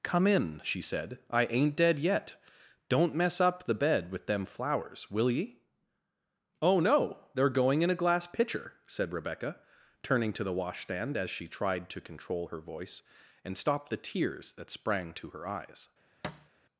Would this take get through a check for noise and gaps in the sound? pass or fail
fail